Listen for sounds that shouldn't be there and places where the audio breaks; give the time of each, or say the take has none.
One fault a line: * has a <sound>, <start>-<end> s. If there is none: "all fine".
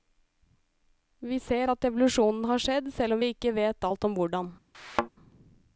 * has a thud, 4.7-5.1 s